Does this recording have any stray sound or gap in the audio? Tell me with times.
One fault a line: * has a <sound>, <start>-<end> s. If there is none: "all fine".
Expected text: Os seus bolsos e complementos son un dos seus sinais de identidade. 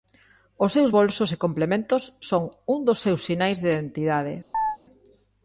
* has a chirp, 4.5-4.8 s